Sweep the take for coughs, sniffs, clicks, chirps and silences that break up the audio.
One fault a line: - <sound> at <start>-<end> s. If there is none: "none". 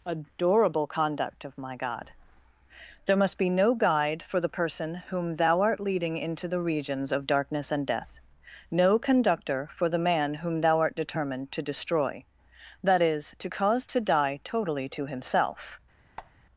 - squeak at 16.2-16.3 s